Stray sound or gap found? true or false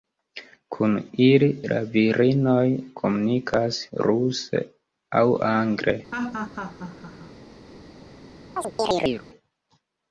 true